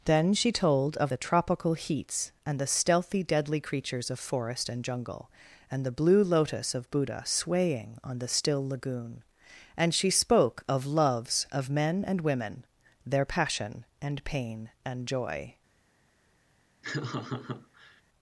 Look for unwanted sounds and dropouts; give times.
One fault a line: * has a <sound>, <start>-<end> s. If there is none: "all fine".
* has a laugh, 16.8-18.0 s